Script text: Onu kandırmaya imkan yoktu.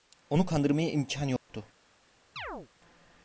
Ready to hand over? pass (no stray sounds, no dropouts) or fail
fail